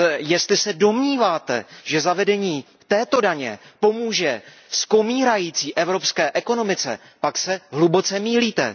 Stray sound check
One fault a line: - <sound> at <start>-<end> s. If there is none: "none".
none